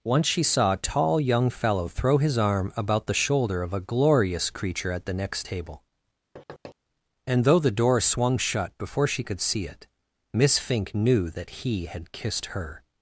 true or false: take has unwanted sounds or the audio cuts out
true